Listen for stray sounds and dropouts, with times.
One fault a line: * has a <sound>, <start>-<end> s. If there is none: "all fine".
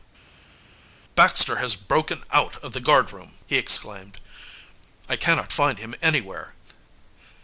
all fine